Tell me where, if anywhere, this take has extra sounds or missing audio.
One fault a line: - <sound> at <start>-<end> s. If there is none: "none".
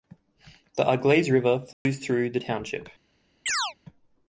- dropout at 1.7-1.9 s
- chirp at 3.5-3.7 s